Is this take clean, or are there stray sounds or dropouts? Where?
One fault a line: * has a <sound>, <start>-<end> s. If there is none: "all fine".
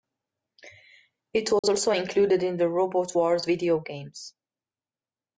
* has a dropout, 1.6-1.6 s